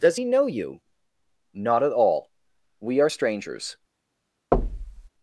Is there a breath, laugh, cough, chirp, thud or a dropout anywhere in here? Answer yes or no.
yes